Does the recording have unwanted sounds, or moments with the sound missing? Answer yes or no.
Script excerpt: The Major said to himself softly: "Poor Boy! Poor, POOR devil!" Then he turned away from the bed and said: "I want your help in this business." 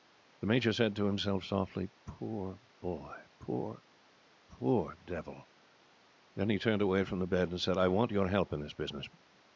no